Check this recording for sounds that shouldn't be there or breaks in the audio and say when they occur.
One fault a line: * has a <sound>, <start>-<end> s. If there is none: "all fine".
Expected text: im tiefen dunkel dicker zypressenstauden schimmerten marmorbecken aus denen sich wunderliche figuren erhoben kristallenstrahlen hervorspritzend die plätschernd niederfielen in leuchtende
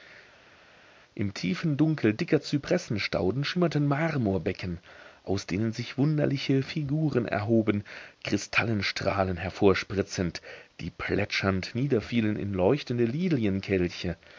all fine